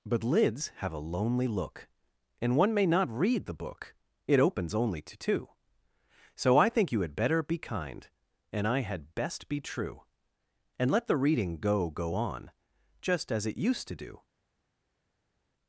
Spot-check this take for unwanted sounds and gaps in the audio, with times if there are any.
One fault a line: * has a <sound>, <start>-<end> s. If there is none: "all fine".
all fine